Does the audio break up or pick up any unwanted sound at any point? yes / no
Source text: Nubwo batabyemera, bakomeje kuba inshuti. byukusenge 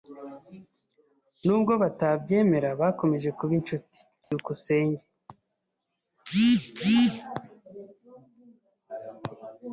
yes